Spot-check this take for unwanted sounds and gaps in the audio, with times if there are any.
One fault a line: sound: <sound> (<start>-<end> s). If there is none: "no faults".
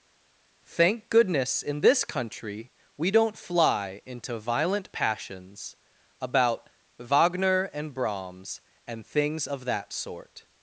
no faults